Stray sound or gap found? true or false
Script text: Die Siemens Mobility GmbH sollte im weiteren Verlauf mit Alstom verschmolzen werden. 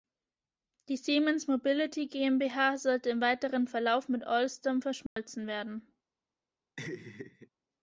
true